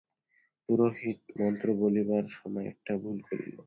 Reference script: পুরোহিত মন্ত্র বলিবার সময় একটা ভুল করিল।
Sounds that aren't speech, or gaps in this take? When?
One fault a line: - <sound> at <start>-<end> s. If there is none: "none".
none